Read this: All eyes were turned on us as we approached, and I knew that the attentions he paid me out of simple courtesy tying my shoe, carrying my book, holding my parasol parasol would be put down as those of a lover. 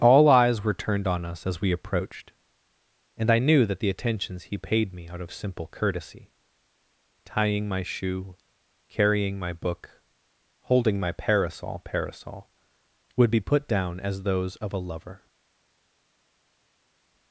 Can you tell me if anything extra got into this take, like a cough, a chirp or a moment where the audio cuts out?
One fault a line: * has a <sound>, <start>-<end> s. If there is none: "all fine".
all fine